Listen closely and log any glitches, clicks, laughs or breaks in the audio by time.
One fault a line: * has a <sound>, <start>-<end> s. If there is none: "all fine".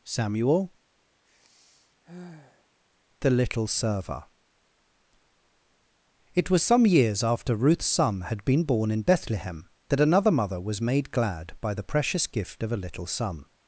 * has a sigh, 1.2-2.7 s